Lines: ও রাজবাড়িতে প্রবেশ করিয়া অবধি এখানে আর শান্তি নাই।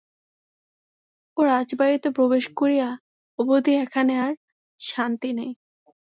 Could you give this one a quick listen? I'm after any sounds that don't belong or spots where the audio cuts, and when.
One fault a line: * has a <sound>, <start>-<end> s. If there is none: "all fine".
all fine